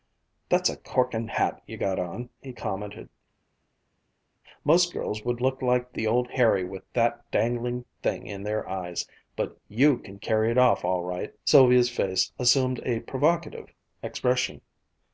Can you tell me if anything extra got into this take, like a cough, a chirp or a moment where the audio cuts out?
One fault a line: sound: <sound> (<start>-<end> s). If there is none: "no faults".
no faults